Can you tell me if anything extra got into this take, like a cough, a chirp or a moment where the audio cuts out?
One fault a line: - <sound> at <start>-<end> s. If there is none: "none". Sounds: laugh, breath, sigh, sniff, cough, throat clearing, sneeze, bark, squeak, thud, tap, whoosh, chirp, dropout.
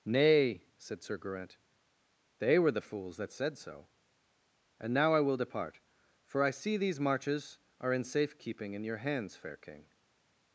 none